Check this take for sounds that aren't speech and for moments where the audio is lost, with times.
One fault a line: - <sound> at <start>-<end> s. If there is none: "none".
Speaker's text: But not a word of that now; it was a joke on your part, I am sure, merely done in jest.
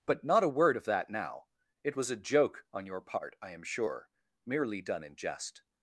none